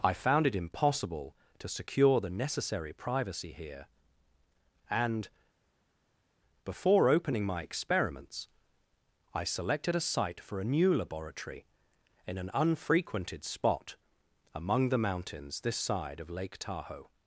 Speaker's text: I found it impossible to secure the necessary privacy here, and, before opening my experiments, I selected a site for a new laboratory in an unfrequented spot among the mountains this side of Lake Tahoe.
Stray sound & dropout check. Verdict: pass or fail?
pass